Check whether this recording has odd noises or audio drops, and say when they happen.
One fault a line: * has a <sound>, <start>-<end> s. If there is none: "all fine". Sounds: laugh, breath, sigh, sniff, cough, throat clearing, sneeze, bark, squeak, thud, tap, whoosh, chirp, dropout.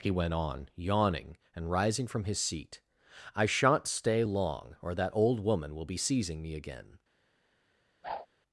* has a whoosh, 8.0-8.3 s